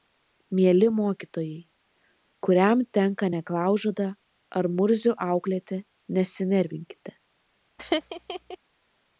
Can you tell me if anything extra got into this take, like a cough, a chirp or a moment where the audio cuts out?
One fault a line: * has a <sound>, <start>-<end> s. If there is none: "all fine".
* has a laugh, 7.8-8.6 s